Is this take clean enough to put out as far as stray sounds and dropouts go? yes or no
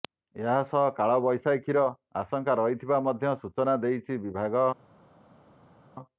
yes